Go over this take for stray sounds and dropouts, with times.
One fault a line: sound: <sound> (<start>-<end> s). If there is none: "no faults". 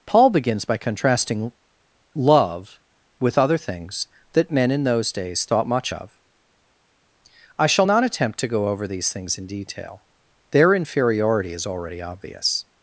no faults